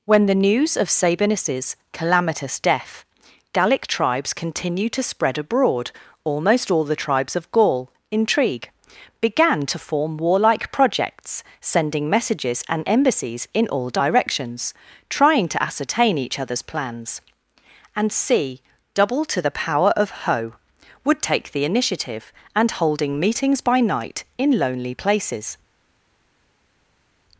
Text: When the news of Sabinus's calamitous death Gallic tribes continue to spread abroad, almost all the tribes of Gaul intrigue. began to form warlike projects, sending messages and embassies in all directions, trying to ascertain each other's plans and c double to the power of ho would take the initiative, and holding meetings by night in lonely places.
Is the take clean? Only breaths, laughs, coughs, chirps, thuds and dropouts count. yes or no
yes